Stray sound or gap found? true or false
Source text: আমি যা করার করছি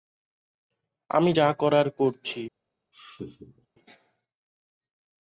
true